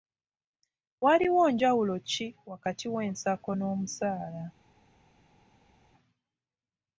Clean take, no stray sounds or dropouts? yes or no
yes